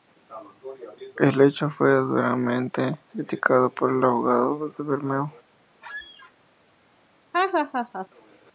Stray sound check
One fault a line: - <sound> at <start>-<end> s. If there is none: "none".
- squeak at 5.8-6.3 s
- laugh at 7.3-8.1 s